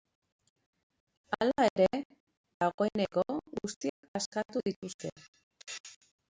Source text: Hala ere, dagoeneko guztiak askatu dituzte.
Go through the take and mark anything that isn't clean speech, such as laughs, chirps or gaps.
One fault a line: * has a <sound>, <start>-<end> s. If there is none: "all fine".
* has a dropout, 3.9-4.0 s